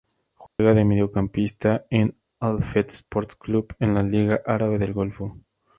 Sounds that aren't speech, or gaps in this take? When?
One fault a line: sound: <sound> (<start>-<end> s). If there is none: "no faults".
sound: dropout (0.5-0.6 s)